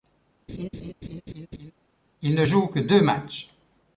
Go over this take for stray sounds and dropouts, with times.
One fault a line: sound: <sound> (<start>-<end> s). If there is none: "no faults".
sound: laugh (0.5-1.7 s)